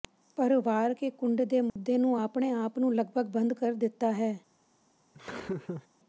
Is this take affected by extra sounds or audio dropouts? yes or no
yes